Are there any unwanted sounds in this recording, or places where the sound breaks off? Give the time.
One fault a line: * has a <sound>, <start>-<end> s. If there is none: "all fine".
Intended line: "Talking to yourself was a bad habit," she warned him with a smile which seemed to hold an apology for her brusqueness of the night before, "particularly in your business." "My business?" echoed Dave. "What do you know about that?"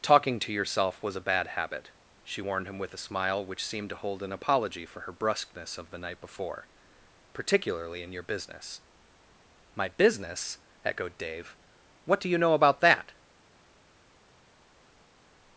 all fine